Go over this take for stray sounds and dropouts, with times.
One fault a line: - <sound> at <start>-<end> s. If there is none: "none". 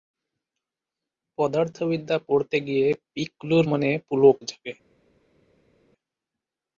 none